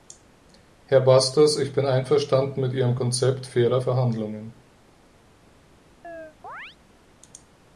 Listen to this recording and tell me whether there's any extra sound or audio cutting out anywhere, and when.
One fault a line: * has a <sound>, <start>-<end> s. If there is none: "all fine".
* has a chirp, 6.0-6.8 s